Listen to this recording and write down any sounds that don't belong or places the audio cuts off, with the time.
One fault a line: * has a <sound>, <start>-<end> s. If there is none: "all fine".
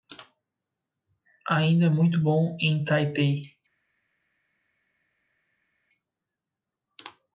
all fine